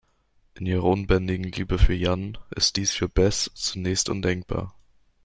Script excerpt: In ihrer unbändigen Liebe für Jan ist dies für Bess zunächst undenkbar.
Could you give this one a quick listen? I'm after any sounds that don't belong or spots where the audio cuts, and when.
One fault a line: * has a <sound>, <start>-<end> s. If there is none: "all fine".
all fine